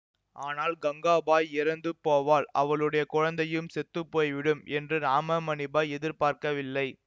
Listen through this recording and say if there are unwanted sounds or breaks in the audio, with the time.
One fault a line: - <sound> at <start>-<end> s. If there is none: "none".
none